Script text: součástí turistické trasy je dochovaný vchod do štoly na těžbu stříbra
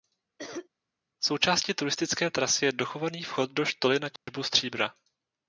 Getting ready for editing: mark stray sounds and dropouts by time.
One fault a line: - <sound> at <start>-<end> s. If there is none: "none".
- cough at 0.4-0.7 s
- dropout at 4.2-4.3 s